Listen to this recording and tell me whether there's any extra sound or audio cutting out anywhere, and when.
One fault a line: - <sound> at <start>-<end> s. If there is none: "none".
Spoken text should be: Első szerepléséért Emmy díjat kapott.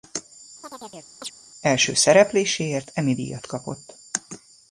- chirp at 0.6-1.3 s